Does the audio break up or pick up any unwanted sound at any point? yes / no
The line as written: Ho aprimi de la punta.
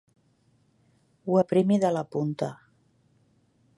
no